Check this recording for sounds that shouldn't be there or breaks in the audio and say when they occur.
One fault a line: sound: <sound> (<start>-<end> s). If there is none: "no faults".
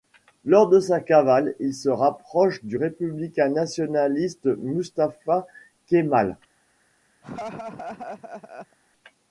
sound: laugh (7.2-8.8 s)